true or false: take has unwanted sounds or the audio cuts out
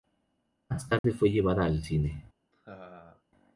true